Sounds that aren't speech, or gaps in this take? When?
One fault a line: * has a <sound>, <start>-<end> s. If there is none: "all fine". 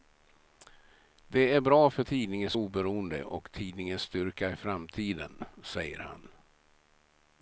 all fine